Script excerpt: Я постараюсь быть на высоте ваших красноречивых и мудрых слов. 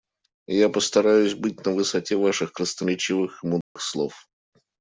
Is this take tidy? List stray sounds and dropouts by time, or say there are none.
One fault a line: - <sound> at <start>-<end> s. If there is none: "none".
- dropout at 3.6-3.8 s